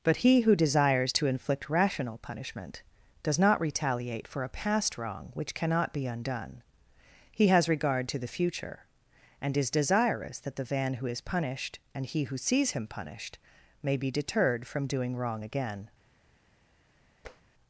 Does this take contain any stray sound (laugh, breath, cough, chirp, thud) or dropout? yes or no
yes